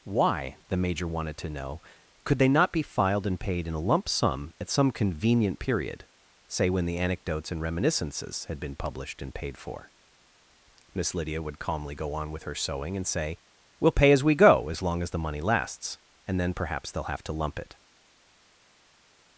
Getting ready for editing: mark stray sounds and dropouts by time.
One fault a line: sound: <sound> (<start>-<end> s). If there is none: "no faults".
no faults